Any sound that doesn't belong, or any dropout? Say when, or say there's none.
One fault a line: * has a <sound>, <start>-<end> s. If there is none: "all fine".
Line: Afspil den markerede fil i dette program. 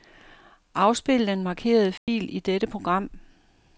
* has a dropout, 2.0-2.1 s